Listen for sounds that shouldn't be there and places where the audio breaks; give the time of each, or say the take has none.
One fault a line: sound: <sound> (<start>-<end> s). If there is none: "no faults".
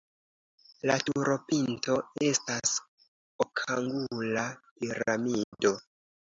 sound: dropout (5.4-5.5 s)